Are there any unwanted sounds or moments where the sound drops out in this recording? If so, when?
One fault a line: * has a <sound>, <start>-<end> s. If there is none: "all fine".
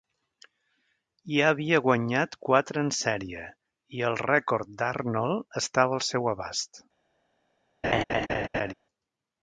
* has a laugh, 7.8-8.7 s